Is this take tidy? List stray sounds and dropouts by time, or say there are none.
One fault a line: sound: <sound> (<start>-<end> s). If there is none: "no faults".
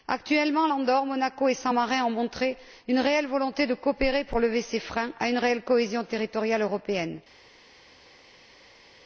no faults